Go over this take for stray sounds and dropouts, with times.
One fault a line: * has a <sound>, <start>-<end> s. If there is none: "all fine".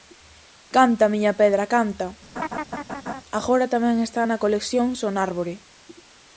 * has a laugh, 2.4-3.2 s